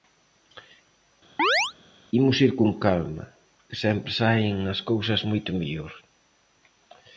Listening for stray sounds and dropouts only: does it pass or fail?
fail